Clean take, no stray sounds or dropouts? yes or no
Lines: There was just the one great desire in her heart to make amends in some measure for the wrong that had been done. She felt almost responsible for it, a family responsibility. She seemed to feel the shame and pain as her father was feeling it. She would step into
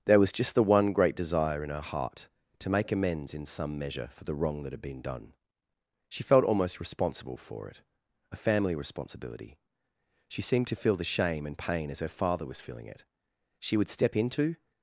yes